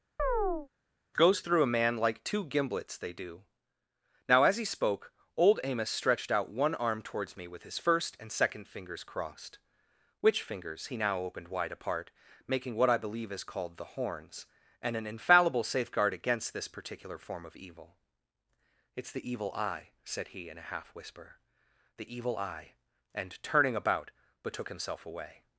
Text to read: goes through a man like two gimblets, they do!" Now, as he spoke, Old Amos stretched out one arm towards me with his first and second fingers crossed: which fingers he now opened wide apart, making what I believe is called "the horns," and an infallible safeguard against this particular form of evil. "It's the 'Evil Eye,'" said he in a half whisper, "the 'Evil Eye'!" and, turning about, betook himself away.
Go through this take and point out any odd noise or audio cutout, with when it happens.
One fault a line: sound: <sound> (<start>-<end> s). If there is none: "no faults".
sound: chirp (0.2-0.7 s)